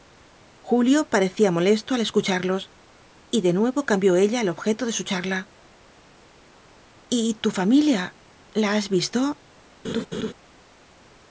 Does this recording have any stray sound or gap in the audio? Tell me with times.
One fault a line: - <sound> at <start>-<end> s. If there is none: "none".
- laugh at 9.8-10.3 s